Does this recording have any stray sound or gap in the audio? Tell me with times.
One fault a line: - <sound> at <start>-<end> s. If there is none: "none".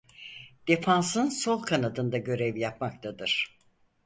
none